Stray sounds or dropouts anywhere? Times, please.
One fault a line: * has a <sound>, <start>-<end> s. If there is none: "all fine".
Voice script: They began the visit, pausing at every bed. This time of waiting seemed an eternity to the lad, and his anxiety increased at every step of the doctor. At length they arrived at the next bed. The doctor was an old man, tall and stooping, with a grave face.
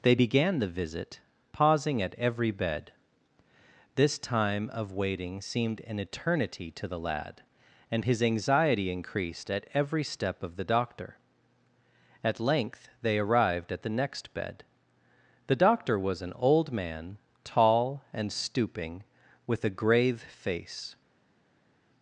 all fine